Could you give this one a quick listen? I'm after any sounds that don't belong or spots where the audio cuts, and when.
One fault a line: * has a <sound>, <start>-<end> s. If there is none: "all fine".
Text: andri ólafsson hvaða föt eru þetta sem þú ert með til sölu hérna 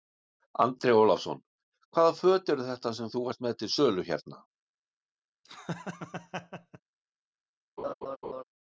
* has a laugh, 5.4-6.8 s
* has a laugh, 7.8-8.4 s